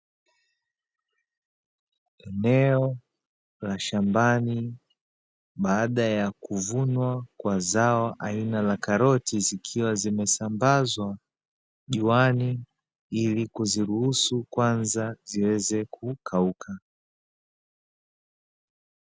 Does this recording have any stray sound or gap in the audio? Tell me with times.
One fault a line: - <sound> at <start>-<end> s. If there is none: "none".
none